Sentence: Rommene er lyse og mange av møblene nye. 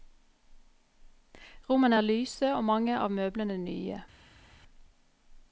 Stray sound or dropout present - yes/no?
no